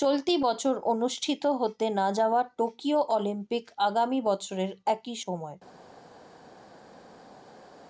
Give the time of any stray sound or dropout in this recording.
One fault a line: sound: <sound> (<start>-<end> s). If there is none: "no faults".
no faults